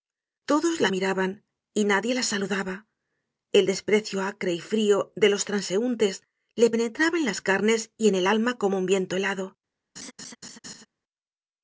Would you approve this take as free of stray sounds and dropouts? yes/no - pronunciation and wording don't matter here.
no